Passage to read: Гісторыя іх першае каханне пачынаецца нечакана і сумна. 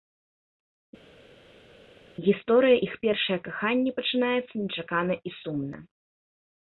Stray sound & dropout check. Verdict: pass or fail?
pass